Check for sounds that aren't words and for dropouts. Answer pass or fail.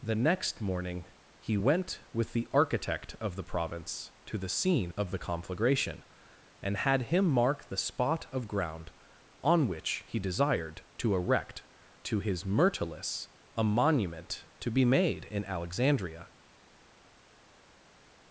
pass